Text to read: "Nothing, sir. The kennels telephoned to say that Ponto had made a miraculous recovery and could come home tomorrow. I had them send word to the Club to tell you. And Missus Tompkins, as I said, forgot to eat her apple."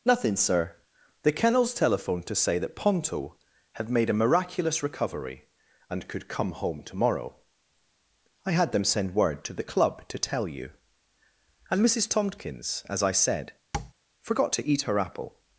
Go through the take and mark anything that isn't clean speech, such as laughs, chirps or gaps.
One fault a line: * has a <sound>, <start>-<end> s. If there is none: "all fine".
* has a tap, 13.7-13.9 s